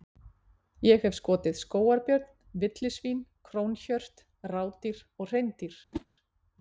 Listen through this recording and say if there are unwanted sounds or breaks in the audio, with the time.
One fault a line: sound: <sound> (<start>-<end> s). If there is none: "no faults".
sound: whoosh (5.9-6.1 s)